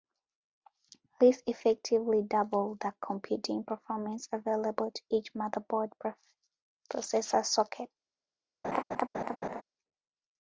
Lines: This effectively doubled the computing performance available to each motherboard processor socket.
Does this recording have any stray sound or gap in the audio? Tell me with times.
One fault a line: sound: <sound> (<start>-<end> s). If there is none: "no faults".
sound: laugh (8.6-9.6 s)